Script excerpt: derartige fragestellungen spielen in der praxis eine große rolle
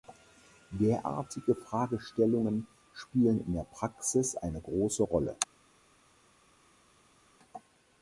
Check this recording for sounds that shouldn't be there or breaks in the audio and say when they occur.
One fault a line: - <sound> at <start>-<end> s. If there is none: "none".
none